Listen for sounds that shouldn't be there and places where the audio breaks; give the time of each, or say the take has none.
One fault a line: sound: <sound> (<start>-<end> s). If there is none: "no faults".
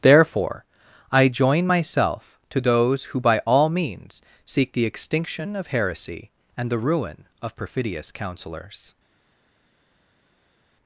no faults